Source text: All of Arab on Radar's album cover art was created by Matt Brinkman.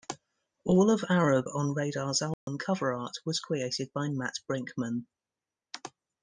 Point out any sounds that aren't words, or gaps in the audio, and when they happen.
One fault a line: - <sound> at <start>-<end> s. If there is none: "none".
- dropout at 2.3-2.5 s